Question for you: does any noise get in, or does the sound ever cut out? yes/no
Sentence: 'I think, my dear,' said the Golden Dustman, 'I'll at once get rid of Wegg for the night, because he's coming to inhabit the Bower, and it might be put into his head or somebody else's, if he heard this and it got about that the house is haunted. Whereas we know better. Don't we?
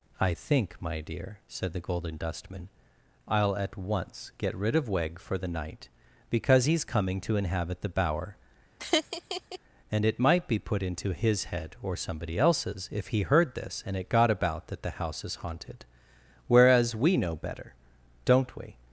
yes